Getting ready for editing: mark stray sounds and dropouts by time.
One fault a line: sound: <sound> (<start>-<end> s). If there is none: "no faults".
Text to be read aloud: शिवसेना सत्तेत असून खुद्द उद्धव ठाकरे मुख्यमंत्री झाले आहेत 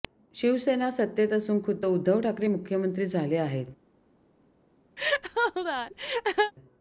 sound: laugh (5.0-6.5 s)